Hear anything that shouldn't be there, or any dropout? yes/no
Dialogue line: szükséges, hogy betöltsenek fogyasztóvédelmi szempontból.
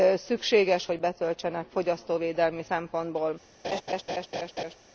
yes